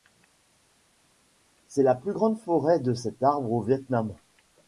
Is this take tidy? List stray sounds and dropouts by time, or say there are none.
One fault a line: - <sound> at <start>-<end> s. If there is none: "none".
none